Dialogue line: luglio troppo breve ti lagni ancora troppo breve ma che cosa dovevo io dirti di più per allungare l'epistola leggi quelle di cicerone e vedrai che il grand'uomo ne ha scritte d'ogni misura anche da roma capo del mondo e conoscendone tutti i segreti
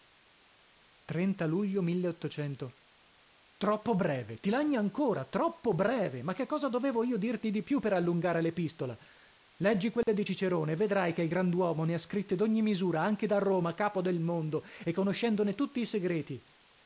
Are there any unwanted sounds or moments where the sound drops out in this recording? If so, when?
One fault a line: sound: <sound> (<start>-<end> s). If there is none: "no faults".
sound: dropout (10.0-10.1 s)